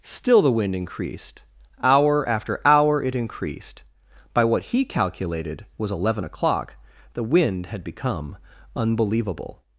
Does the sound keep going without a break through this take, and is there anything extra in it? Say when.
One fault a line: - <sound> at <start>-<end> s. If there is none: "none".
none